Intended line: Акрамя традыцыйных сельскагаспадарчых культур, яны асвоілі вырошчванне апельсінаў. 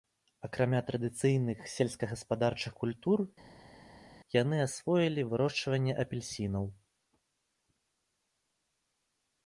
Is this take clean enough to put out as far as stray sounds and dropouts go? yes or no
yes